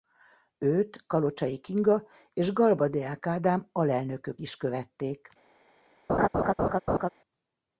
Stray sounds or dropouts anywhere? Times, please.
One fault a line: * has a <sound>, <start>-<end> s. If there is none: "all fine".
* has a laugh, 6.1-7.1 s